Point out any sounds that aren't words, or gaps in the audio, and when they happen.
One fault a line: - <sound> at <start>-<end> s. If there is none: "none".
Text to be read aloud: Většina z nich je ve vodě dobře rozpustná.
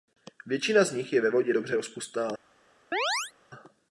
- chirp at 2.9-3.3 s